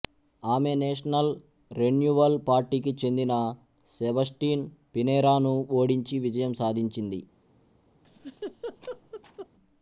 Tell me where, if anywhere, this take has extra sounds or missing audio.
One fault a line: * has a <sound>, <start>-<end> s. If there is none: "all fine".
* has a laugh, 8.0-9.5 s